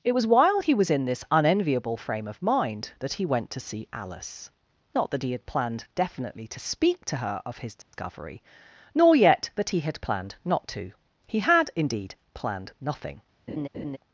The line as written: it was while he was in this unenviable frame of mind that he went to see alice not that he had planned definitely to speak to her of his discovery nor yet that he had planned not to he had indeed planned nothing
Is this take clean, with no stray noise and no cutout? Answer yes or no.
no